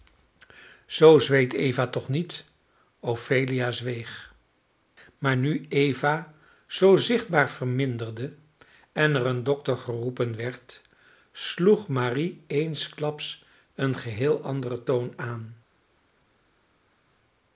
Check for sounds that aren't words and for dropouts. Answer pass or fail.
pass